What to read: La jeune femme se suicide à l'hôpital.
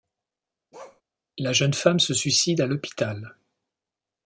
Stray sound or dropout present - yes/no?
yes